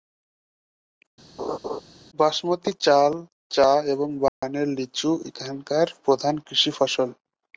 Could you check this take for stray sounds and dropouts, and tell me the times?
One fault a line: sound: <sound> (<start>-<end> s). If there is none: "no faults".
sound: laugh (1.4-1.8 s)
sound: dropout (4.3-4.4 s)